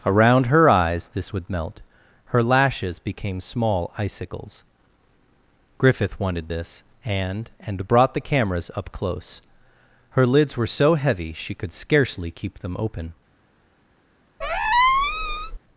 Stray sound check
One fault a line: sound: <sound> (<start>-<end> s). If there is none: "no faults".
sound: squeak (14.4-15.6 s)